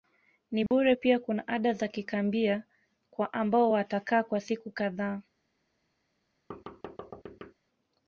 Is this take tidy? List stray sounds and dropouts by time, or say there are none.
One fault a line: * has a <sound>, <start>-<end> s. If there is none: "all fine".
* has a dropout, 0.7-0.7 s
* has a thud, 6.5-7.5 s